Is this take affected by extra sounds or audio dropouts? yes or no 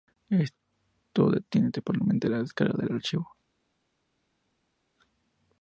no